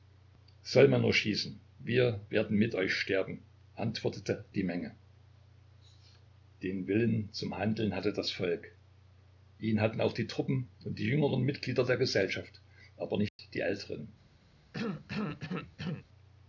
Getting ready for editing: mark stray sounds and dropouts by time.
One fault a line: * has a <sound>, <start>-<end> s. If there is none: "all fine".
* has a dropout, 13.3-13.4 s
* has a cough, 14.7-16.1 s